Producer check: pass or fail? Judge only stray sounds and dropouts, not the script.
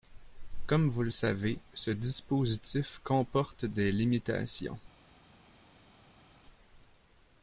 pass